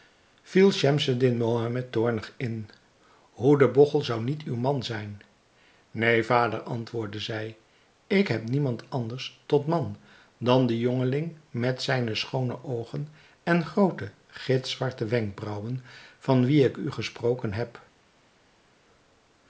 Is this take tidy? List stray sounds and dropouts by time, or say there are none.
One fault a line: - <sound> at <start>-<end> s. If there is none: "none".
none